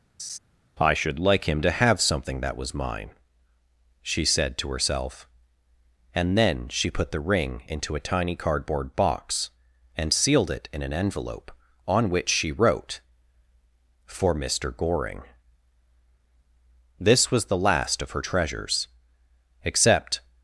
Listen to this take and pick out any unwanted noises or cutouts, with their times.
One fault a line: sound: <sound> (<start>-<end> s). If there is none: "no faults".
sound: laugh (0.2-0.4 s)